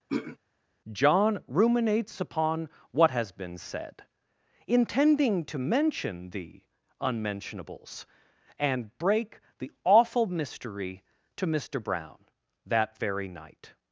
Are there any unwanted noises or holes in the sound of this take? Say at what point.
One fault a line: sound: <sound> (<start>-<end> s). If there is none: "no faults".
sound: throat clearing (0.1-0.4 s)